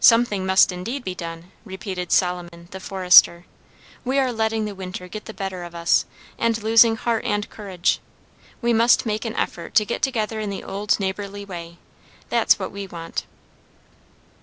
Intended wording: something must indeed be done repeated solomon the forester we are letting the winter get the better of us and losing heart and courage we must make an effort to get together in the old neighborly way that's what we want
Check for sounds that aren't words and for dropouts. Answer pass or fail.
fail